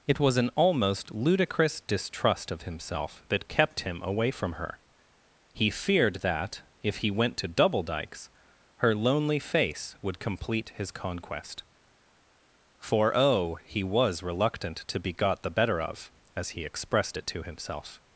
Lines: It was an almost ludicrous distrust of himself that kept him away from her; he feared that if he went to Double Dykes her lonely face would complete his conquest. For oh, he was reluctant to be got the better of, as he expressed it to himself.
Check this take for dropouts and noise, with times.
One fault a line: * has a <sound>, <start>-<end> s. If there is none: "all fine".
all fine